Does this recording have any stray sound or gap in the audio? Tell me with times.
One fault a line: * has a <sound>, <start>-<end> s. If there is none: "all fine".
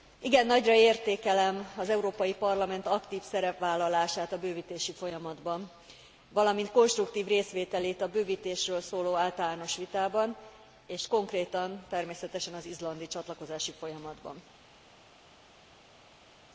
all fine